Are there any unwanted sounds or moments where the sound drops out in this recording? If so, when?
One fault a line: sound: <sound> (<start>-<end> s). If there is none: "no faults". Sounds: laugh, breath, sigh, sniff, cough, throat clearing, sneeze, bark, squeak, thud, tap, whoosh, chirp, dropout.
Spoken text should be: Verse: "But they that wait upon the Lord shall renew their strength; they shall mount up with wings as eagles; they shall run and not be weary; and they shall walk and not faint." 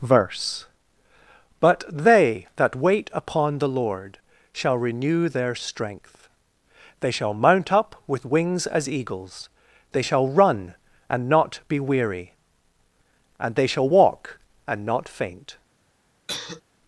sound: cough (16.3-16.6 s)